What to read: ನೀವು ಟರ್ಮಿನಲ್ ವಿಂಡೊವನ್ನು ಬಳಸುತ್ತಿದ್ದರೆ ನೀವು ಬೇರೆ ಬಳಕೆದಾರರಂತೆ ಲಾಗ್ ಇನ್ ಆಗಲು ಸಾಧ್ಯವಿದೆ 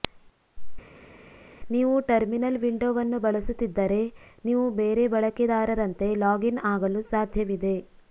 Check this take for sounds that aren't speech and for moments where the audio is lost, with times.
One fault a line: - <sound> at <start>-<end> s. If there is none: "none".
none